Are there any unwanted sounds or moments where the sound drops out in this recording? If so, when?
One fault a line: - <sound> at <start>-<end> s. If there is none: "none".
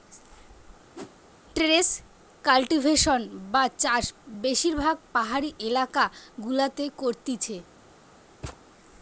- whoosh at 0.9-1.2 s
- thud at 8.4-8.6 s